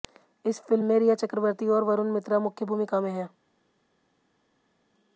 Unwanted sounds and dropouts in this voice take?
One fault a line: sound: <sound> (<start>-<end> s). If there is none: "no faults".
no faults